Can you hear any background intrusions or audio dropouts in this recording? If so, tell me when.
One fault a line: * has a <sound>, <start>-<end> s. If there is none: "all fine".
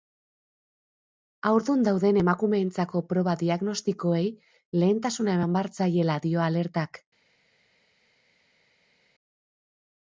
all fine